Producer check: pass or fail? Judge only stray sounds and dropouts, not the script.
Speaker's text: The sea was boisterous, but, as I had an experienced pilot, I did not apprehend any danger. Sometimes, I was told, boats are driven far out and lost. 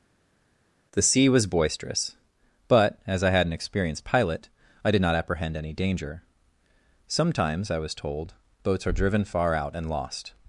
pass